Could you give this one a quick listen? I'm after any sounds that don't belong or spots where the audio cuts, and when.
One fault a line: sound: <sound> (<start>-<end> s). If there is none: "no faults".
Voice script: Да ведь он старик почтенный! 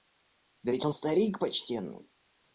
no faults